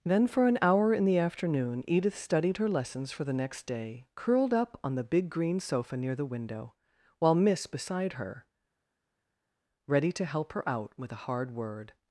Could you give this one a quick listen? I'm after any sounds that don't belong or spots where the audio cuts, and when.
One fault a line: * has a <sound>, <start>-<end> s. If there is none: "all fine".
all fine